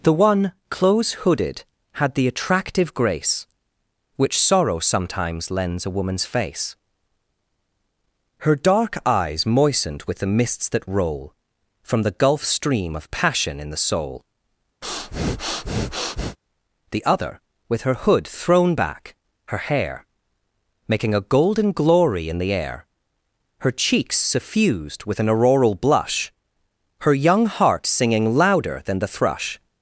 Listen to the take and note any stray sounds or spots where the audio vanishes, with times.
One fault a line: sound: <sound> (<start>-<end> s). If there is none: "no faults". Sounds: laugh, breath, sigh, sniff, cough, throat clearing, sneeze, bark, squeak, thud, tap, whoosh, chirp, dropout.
sound: breath (14.8-16.4 s)